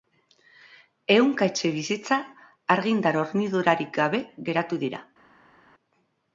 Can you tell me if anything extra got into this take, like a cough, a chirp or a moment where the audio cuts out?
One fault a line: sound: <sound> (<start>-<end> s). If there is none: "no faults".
no faults